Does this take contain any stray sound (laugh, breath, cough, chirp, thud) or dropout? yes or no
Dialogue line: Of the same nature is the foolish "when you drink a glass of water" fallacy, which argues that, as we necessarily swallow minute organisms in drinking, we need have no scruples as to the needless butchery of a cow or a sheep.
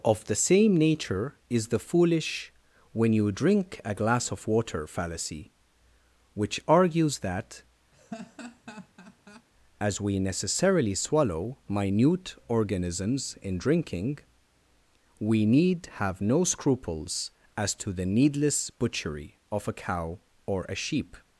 yes